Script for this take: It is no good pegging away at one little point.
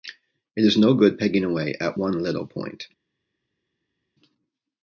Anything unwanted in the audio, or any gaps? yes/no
no